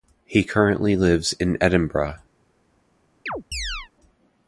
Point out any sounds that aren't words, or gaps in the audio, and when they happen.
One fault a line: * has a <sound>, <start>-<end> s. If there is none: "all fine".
* has a chirp, 3.3-3.9 s